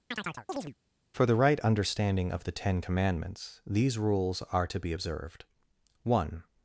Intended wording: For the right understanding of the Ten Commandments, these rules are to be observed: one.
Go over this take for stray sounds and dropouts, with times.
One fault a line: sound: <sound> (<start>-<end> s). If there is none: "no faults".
sound: chirp (0.1-0.7 s)